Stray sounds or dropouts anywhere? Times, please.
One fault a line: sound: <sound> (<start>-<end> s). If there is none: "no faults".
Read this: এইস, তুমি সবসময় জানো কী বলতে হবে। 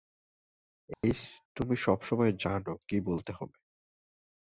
sound: dropout (0.9-1.0 s)